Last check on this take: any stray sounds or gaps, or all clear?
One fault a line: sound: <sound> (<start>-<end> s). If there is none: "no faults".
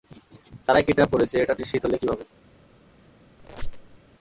sound: squeak (3.4-4.0 s)